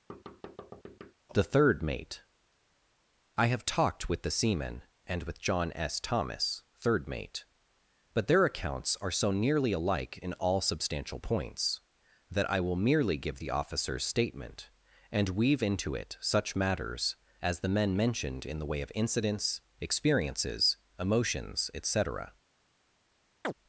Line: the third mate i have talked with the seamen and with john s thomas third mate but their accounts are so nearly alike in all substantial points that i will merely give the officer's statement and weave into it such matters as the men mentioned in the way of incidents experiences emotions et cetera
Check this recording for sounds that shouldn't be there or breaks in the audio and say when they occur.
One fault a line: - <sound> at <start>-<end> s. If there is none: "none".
- thud at 0.1-1.1 s
- chirp at 23.4-23.5 s